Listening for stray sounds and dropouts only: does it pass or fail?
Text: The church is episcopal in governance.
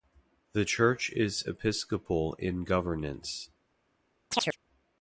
fail